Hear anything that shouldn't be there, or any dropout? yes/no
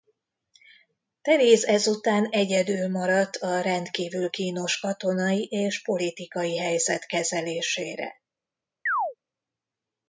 yes